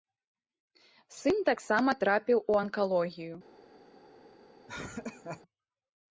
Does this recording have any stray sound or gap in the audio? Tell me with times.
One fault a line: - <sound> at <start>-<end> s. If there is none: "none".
- laugh at 4.7-5.4 s